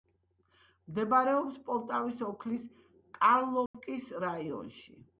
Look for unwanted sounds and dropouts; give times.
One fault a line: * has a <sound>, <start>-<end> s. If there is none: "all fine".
* has a dropout, 3.7-3.7 s